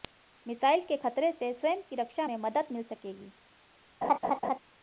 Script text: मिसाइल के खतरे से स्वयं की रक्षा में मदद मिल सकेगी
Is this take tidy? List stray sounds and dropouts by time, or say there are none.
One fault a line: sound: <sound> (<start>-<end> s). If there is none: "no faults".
sound: laugh (4.0-4.6 s)